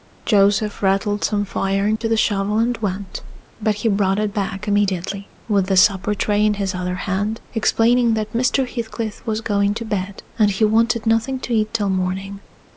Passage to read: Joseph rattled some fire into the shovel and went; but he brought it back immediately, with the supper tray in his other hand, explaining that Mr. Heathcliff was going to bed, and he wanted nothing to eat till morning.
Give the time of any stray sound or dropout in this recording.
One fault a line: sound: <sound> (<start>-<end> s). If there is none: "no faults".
sound: dropout (2.0-2.0 s)